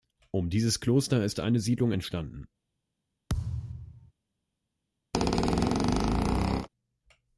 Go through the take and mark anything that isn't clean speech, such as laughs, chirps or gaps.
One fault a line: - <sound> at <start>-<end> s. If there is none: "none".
- thud at 3.3-4.1 s
- squeak at 5.1-6.7 s